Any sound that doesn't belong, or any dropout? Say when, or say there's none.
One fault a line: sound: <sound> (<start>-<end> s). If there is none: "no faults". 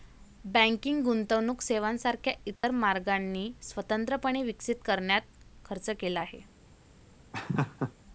sound: dropout (2.6-2.6 s)
sound: laugh (7.3-7.9 s)